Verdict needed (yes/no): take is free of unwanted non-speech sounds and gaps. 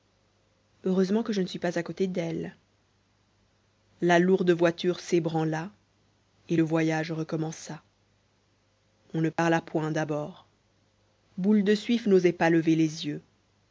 no